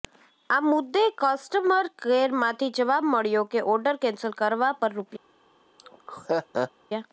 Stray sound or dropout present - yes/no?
yes